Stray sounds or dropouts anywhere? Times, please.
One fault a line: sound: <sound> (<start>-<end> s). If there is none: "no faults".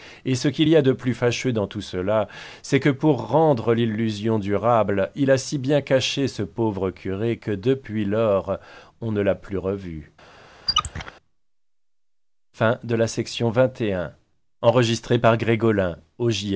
sound: squeak (10.7-11.1 s)